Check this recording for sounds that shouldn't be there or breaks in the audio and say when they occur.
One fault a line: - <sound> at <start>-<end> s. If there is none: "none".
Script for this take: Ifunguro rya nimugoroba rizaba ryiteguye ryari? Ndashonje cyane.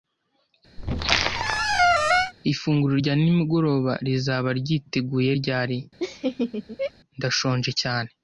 - squeak at 0.8-2.3 s
- laugh at 6.0-6.9 s